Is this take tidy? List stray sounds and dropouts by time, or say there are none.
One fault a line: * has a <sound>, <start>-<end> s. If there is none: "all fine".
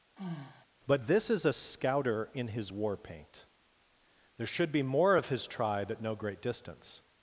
* has a sigh, 0.2-0.7 s